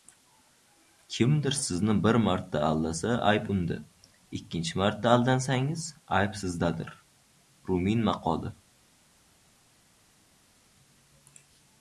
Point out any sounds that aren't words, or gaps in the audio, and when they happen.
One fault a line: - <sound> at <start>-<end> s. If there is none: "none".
none